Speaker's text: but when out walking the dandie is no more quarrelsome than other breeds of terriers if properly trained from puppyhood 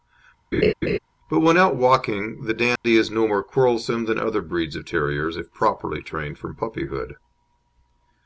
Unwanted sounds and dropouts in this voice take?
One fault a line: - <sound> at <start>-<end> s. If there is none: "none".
- laugh at 0.5-1.0 s
- dropout at 2.8-2.8 s